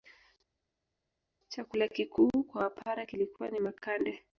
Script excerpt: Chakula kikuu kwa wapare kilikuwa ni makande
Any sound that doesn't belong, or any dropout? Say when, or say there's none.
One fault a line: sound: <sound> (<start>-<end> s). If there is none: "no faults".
no faults